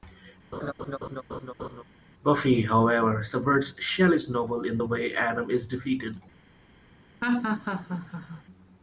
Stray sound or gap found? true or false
true